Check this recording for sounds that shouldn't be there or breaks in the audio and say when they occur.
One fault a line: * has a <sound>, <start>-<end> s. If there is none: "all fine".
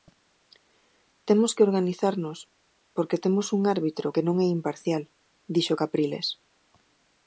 all fine